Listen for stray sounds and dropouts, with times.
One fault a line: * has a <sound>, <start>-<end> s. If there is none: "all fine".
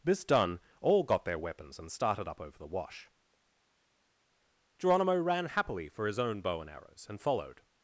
all fine